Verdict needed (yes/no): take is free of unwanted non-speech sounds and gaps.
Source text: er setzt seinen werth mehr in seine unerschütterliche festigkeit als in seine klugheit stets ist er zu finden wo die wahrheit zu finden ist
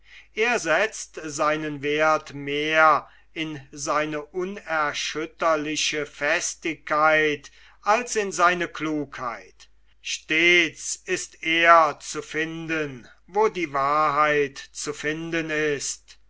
yes